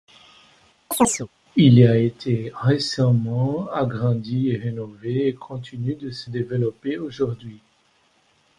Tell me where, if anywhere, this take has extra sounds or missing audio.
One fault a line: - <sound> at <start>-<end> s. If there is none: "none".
- chirp at 0.9-1.3 s